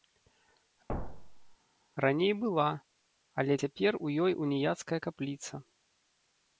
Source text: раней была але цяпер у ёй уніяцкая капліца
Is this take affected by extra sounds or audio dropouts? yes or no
yes